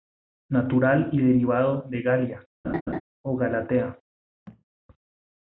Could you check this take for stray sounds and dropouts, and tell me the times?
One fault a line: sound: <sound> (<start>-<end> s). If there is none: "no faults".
sound: laugh (2.6-3.0 s)
sound: thud (4.5-4.6 s)